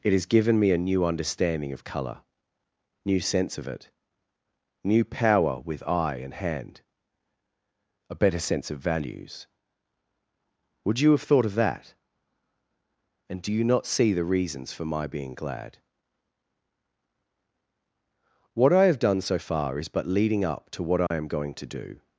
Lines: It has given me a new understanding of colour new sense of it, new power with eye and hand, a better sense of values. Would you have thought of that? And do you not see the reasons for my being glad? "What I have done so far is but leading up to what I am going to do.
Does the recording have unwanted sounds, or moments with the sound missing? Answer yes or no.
yes